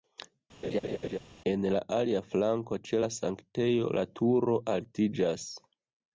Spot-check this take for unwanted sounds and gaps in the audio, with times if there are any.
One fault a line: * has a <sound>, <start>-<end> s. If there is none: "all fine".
* has a laugh, 0.6-1.2 s